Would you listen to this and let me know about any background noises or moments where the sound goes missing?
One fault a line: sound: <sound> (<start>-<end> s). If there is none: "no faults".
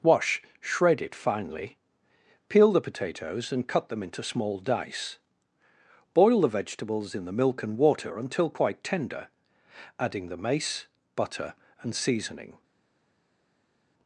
no faults